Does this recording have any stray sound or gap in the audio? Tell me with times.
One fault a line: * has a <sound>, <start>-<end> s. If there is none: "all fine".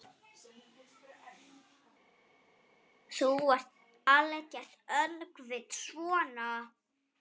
all fine